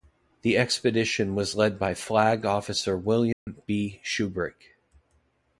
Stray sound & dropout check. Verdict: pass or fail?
fail